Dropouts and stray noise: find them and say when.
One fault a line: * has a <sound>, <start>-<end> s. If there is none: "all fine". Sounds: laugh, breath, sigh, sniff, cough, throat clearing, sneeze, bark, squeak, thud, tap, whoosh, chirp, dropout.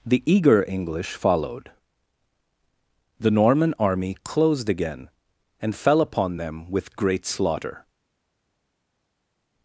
all fine